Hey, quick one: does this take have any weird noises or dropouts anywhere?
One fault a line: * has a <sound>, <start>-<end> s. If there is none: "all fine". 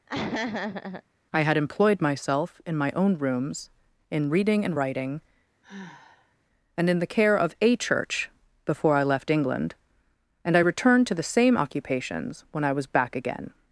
* has a laugh, 0.1-1.0 s
* has a sigh, 5.6-6.4 s